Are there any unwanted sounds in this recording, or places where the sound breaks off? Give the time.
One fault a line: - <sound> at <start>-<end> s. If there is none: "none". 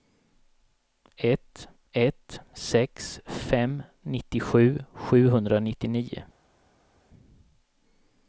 none